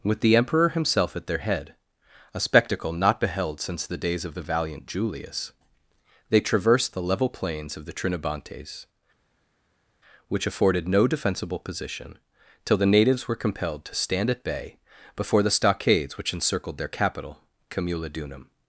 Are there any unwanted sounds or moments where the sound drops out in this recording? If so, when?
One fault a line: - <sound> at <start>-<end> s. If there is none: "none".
none